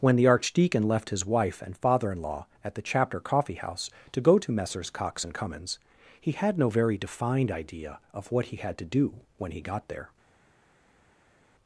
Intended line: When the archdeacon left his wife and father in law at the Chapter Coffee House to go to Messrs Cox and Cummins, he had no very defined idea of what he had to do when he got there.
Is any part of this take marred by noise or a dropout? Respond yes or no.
no